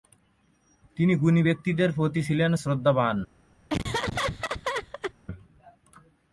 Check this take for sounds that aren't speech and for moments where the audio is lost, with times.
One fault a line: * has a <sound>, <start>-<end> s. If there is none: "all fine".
* has a laugh, 3.7-5.1 s